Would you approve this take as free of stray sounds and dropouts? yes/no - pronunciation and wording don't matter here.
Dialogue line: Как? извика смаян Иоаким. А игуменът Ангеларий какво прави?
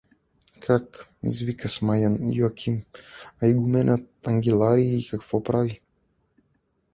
yes